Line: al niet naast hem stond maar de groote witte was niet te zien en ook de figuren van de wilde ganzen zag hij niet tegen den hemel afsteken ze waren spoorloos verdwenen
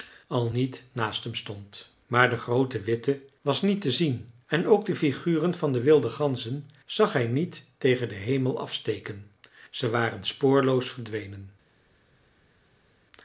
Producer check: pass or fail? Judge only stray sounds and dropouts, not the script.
pass